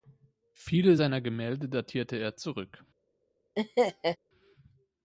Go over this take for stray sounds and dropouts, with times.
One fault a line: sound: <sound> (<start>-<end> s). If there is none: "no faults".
sound: laugh (3.6-4.2 s)